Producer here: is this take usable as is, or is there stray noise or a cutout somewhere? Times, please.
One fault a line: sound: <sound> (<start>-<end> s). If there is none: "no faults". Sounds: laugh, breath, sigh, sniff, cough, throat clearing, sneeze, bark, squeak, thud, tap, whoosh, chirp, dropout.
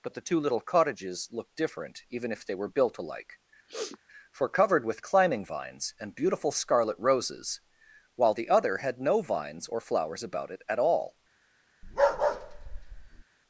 sound: sniff (3.7-4.0 s)
sound: bark (11.8-13.2 s)